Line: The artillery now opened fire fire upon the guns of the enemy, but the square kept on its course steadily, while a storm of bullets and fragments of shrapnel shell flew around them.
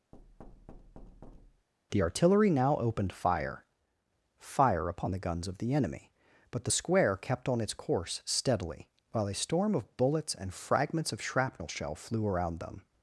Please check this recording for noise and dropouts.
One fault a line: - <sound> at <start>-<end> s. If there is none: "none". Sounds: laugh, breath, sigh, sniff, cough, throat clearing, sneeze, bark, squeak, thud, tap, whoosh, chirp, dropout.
- thud at 0.1-1.7 s